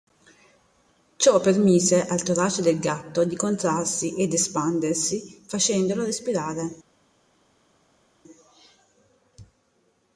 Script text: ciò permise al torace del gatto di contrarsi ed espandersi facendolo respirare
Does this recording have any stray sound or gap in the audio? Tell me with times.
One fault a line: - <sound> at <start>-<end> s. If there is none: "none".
none